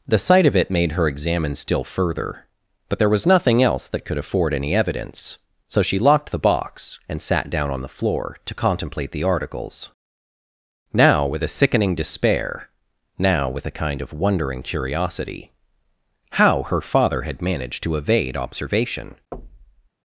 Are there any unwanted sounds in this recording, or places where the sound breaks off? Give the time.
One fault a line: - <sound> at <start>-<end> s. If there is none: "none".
- thud at 19.3-19.9 s